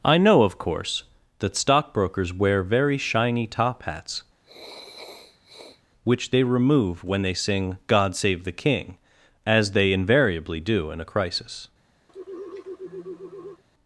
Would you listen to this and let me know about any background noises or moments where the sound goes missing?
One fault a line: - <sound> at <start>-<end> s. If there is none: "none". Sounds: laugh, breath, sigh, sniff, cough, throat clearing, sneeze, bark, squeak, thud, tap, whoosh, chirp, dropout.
- sniff at 4.4-5.8 s
- sigh at 12.1-13.6 s